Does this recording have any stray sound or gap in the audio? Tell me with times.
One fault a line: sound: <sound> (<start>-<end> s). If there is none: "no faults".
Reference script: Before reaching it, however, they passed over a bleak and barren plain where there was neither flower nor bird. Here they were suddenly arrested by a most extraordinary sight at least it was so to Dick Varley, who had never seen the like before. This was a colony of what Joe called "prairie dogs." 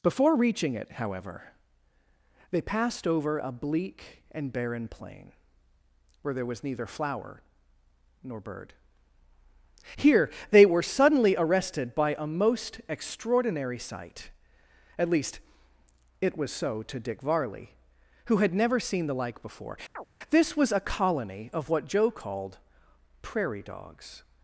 sound: chirp (20.0-20.1 s)